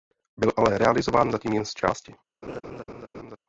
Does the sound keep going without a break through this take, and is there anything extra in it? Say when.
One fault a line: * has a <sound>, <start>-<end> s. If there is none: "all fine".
* has a laugh, 2.4-3.4 s